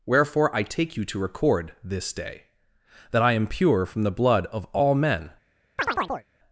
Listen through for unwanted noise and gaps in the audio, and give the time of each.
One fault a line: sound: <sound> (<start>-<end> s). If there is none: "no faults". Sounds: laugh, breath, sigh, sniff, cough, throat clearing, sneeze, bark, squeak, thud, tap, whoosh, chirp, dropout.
sound: chirp (5.8-6.3 s)